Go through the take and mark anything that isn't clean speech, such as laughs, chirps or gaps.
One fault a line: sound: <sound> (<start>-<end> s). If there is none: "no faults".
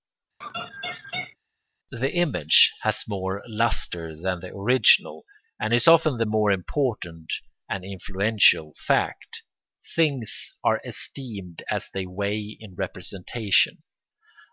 sound: laugh (0.4-1.4 s)